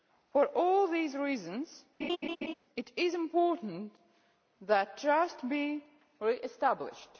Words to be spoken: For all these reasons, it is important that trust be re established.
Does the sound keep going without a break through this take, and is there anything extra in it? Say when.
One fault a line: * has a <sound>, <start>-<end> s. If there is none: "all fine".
* has a laugh, 2.0-2.5 s